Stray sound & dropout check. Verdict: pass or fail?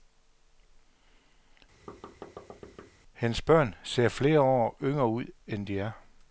fail